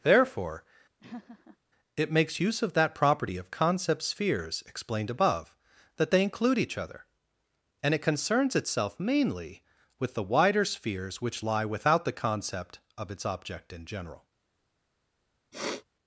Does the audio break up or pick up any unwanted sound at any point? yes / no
yes